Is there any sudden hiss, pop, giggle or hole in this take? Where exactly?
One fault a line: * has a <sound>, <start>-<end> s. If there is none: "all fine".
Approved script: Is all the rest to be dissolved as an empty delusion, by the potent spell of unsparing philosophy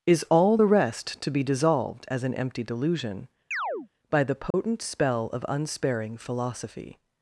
* has a chirp, 3.5-3.9 s
* has a dropout, 4.5-4.5 s